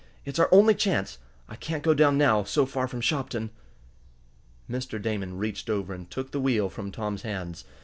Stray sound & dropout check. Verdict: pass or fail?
pass